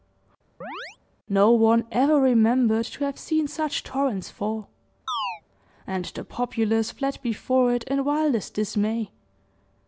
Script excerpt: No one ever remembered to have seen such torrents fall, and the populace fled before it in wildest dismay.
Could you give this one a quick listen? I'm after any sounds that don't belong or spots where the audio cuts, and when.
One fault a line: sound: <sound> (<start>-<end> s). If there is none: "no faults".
sound: chirp (0.6-1.0 s)
sound: chirp (5.1-5.4 s)